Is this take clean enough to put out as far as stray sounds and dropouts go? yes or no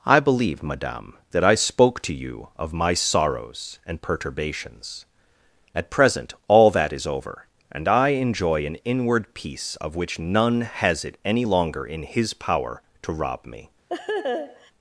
no